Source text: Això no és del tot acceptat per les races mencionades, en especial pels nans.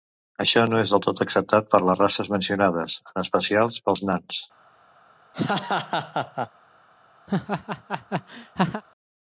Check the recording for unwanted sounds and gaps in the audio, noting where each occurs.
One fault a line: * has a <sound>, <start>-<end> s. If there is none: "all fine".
* has a laugh, 5.3-6.5 s
* has a laugh, 7.3-8.8 s